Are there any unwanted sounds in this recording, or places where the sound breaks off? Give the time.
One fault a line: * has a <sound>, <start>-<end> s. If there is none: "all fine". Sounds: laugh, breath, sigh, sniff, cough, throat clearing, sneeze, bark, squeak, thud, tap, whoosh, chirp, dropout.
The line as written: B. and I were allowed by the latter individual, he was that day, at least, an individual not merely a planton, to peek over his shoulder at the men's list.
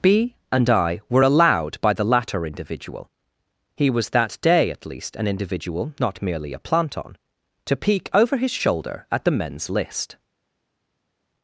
all fine